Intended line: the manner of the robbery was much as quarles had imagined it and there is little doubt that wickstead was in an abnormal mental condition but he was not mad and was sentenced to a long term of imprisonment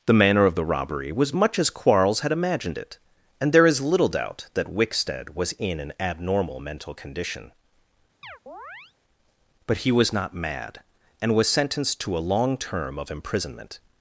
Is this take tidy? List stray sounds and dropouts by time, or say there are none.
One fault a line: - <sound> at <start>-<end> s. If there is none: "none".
- chirp at 8.2-8.9 s